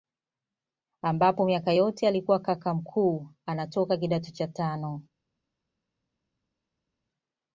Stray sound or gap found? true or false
false